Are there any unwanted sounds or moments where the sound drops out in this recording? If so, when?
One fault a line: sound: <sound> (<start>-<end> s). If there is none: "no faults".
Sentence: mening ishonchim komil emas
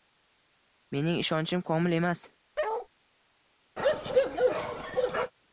sound: bark (2.6-2.9 s)
sound: bark (3.8-5.3 s)